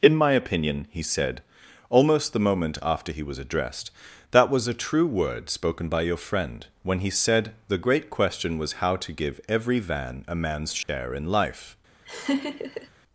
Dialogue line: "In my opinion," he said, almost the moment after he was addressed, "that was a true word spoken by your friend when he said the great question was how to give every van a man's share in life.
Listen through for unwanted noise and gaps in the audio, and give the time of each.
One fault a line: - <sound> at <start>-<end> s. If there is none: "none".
- dropout at 10.8-10.9 s
- laugh at 12.0-12.9 s